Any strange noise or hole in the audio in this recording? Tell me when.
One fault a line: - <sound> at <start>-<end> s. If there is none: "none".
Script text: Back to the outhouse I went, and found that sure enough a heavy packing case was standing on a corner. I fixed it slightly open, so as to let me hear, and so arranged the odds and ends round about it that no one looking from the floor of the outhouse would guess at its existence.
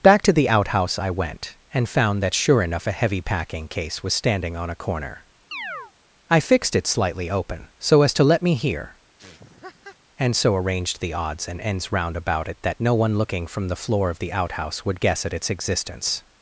- chirp at 5.5-5.9 s
- laugh at 9.2-10.0 s